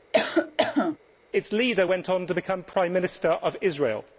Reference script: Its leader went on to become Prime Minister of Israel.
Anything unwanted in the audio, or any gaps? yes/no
yes